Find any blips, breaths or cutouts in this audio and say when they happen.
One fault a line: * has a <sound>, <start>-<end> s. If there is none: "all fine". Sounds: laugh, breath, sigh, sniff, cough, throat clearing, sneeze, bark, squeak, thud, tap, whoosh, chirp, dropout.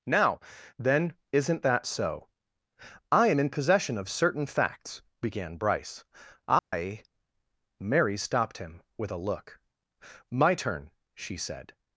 * has a dropout, 6.6-6.7 s